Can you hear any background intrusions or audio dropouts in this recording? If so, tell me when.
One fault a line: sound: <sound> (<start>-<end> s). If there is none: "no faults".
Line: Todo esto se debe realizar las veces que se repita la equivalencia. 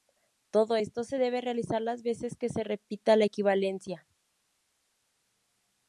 no faults